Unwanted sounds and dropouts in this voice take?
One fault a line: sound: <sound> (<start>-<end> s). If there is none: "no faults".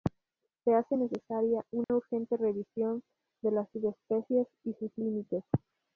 sound: dropout (1.8-1.9 s)